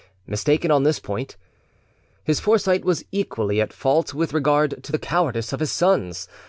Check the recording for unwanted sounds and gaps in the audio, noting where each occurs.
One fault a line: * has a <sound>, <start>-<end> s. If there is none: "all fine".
all fine